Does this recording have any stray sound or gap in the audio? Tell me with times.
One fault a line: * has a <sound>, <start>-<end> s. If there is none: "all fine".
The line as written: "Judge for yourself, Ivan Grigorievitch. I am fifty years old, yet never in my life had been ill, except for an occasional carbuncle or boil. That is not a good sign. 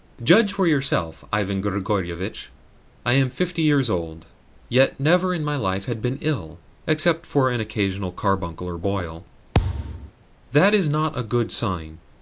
* has a thud, 9.5-10.1 s